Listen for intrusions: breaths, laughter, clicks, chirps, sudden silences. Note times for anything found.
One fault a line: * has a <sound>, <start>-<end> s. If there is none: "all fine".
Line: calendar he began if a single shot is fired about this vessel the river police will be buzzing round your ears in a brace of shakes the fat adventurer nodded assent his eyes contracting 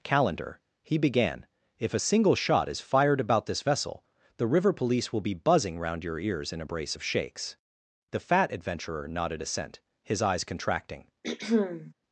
* has a throat clearing, 11.2-11.9 s